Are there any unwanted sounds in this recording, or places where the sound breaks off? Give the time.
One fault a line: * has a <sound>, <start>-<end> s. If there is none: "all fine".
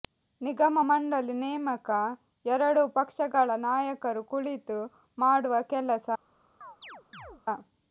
* has a chirp, 6.6-7.4 s